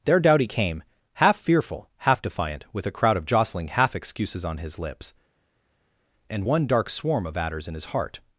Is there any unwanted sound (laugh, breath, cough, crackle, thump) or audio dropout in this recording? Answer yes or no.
no